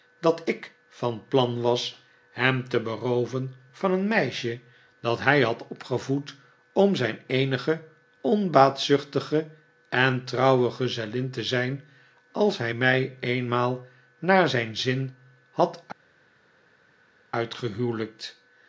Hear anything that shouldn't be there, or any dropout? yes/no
no